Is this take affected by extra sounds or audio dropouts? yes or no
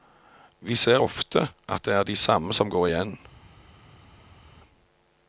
no